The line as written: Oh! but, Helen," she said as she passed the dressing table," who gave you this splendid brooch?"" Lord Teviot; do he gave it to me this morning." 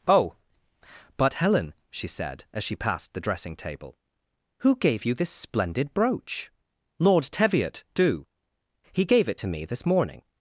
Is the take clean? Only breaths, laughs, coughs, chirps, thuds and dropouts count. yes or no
yes